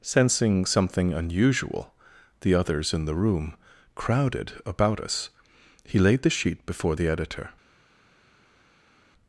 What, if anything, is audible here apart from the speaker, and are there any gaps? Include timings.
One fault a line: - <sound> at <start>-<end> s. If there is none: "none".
none